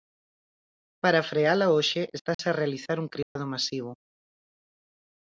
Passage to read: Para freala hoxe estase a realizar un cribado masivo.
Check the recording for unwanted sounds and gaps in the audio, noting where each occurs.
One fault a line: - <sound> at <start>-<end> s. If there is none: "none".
- dropout at 2.3-2.4 s
- dropout at 3.2-3.4 s